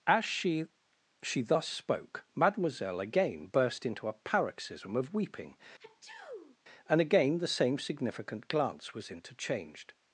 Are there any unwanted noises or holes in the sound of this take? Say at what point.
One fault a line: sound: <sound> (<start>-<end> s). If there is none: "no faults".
sound: sneeze (5.8-6.6 s)